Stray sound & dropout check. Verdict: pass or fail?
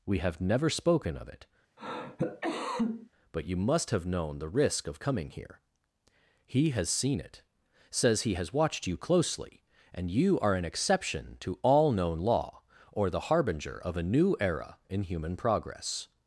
fail